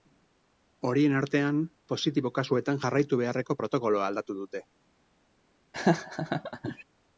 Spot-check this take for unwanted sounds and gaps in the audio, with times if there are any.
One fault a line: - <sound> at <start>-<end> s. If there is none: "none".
- laugh at 5.7-6.8 s